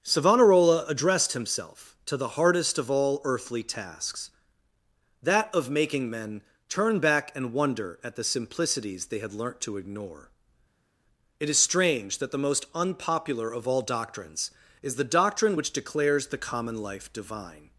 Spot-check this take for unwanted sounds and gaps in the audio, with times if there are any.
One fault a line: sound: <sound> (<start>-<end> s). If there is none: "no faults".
no faults